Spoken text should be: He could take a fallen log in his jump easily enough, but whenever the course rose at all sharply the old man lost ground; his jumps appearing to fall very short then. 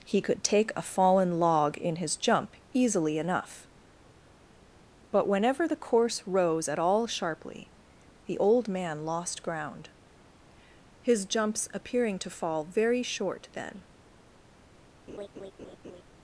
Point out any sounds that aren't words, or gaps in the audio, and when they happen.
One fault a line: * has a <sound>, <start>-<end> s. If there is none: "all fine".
* has a laugh, 15.1-16.0 s